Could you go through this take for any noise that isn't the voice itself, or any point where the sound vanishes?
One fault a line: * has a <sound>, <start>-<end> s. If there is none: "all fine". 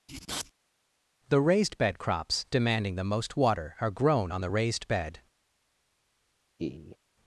* has a laugh, 6.6-7.0 s